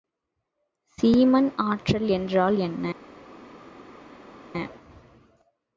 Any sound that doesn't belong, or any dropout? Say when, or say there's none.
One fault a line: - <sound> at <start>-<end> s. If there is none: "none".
none